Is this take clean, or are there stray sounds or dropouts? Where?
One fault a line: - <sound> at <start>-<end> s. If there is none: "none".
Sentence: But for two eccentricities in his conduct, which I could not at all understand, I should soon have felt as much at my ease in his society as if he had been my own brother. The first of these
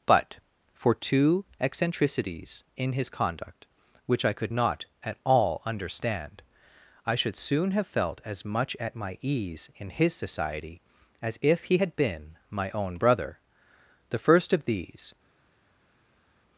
none